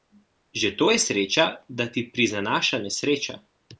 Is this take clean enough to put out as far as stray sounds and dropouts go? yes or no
yes